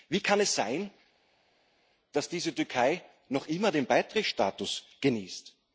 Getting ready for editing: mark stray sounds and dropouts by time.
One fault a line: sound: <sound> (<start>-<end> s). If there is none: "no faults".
no faults